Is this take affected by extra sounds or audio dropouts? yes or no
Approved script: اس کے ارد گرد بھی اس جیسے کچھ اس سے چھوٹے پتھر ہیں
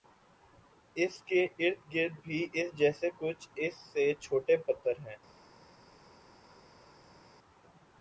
no